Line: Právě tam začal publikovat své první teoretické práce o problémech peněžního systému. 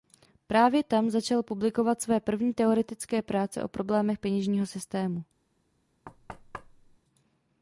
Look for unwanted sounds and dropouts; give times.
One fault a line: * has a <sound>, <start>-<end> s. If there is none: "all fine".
* has a thud, 6.0-7.0 s